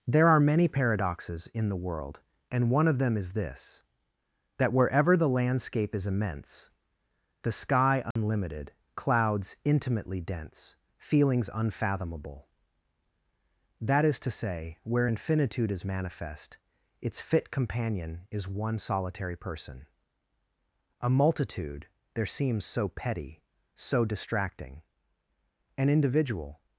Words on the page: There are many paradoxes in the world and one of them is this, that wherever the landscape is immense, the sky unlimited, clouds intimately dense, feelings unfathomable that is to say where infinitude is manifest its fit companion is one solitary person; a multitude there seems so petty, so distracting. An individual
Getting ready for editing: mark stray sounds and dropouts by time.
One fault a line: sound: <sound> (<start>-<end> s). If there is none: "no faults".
sound: dropout (8.1-8.2 s)